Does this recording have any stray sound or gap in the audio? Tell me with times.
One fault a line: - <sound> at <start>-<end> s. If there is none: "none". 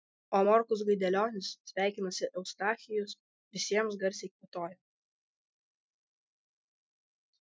none